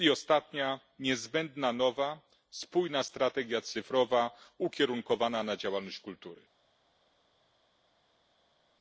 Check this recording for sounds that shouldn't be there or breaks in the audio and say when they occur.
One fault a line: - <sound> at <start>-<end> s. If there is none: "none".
none